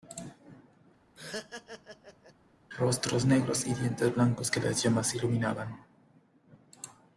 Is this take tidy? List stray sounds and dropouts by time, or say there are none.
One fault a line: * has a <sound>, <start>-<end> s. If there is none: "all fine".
* has a laugh, 1.2-2.3 s